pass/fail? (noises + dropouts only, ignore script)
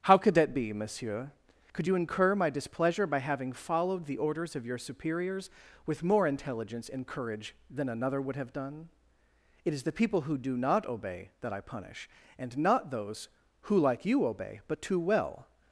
pass